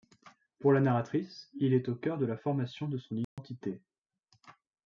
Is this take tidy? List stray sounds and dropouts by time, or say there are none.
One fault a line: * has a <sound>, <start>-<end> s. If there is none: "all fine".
* has a dropout, 3.2-3.4 s